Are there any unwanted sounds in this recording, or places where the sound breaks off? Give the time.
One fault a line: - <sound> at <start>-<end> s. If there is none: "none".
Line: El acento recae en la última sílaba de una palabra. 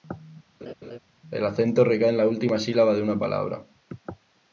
- laugh at 0.6-1.0 s